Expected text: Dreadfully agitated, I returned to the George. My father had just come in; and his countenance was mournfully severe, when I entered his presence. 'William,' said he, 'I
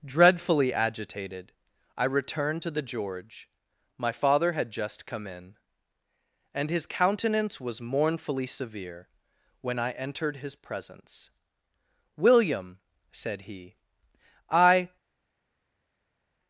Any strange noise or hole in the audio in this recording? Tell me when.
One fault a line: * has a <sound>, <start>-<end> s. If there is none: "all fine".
all fine